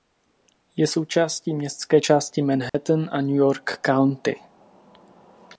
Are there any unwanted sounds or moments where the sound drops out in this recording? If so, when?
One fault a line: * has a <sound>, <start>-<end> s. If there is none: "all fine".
* has a dropout, 2.7-2.7 s